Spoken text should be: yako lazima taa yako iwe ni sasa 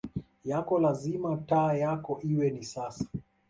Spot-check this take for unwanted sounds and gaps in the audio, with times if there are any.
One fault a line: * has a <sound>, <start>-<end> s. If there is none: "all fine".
all fine